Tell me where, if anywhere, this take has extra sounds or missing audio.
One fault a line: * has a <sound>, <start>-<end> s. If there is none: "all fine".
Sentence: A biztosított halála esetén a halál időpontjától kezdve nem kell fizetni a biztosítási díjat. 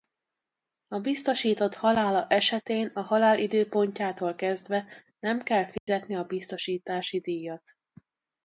* has a dropout, 5.8-5.9 s